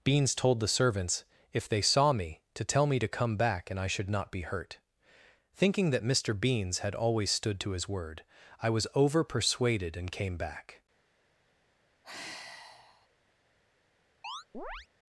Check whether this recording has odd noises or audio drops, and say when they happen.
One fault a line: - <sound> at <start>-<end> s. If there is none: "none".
- sigh at 12.0-13.1 s
- chirp at 14.2-14.9 s